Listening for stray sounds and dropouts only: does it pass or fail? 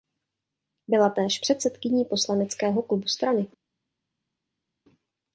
pass